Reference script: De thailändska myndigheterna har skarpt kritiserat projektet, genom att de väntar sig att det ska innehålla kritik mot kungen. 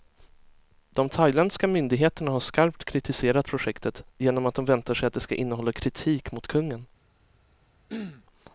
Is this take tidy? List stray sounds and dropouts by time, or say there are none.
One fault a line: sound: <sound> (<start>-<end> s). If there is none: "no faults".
sound: throat clearing (7.9-8.3 s)